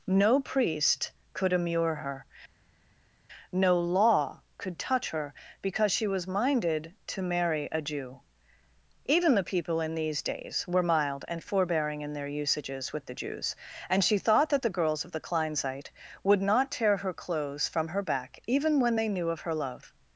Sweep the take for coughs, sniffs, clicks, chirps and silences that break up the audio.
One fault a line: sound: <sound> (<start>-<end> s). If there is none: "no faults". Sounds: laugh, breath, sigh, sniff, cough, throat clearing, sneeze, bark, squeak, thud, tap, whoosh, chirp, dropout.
no faults